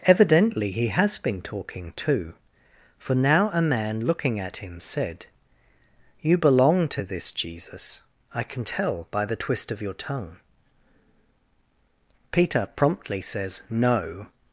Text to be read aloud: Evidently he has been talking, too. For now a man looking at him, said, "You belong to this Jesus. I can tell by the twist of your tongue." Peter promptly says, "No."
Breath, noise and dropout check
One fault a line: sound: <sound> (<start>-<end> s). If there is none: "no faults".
no faults